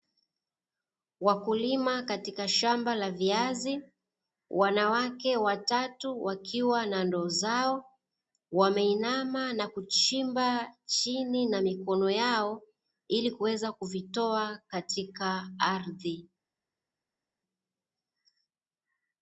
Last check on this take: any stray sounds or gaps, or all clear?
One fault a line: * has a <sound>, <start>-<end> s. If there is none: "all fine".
all fine